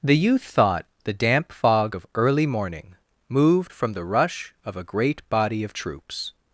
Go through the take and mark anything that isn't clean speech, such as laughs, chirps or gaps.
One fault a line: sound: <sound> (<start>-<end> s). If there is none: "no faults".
no faults